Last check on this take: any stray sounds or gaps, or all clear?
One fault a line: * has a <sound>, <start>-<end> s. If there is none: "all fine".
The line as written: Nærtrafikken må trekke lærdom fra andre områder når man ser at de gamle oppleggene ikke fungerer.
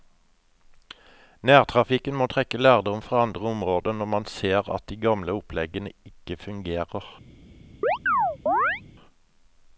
* has a chirp, 7.8-8.8 s